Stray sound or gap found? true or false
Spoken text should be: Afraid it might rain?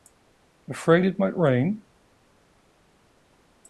false